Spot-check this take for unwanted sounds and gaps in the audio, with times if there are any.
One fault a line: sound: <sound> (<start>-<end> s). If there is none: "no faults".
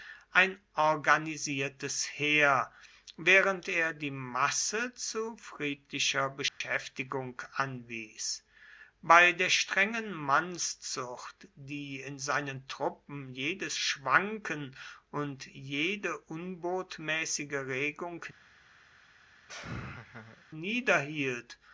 sound: dropout (6.5-6.6 s)
sound: laugh (19.5-20.4 s)